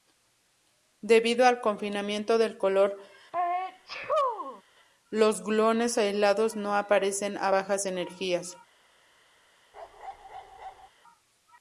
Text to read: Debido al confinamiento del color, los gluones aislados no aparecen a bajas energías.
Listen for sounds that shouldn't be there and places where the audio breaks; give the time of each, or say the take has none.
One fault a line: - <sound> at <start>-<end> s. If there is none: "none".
- sneeze at 3.3-4.6 s
- bark at 9.7-10.9 s